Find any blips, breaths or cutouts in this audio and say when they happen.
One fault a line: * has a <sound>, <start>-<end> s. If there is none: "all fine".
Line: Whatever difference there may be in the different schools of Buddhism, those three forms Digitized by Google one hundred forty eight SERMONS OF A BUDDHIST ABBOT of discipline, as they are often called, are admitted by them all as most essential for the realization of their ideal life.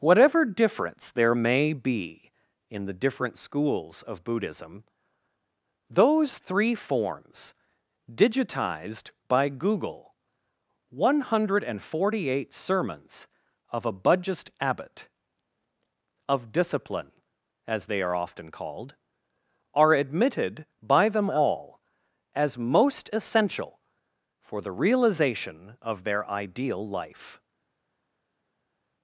all fine